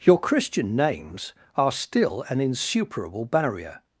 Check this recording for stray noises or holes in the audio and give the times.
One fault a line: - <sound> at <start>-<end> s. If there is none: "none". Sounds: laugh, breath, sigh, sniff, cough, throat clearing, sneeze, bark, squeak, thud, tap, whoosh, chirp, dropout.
none